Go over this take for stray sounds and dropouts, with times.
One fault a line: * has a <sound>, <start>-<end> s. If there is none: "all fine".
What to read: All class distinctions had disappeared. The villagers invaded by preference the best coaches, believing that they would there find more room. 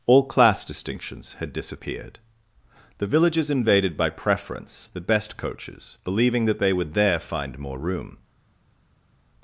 all fine